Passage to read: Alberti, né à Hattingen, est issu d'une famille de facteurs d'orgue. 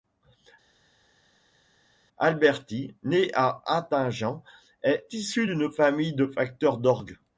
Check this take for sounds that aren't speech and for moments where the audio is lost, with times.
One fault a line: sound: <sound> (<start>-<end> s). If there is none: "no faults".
no faults